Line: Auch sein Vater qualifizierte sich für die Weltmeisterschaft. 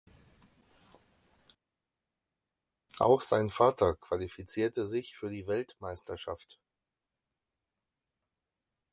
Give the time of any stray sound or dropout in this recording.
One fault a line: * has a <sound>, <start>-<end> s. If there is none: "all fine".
all fine